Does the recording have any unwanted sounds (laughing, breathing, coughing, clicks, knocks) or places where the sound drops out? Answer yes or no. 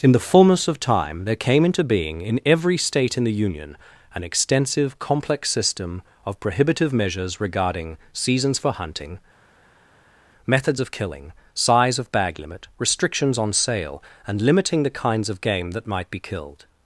no